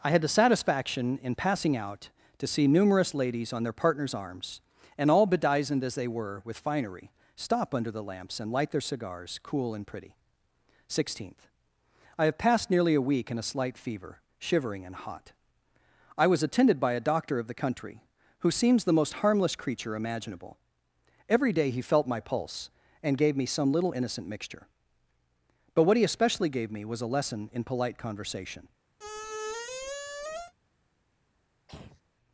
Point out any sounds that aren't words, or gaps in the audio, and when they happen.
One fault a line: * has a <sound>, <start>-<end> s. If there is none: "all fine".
* has a squeak, 29.0-30.5 s
* has a throat clearing, 31.7-32.0 s